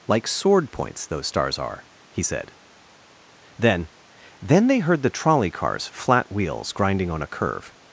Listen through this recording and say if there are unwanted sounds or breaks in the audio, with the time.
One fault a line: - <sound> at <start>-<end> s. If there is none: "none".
none